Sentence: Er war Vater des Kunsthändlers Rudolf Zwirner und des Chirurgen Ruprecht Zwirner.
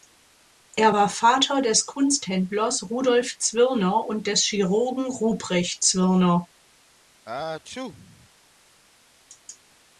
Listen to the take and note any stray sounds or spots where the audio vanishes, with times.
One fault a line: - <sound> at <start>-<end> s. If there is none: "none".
- sneeze at 7.3-8.3 s